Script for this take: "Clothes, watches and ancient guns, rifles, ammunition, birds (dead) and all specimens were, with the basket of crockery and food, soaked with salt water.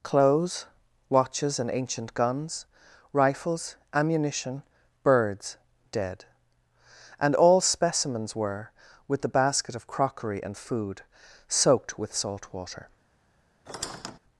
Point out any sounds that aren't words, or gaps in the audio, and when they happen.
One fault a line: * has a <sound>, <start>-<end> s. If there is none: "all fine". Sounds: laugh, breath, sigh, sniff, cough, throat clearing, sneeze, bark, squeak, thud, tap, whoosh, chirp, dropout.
* has a squeak, 13.7-14.2 s